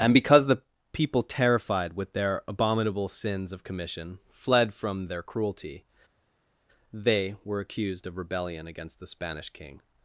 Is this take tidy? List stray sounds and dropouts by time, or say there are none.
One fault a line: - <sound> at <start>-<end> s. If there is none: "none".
none